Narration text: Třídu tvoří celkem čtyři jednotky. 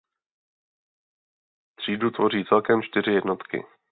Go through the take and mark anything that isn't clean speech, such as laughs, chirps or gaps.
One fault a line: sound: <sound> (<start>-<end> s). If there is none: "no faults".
no faults